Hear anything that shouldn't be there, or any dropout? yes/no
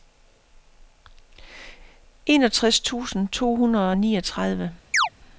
yes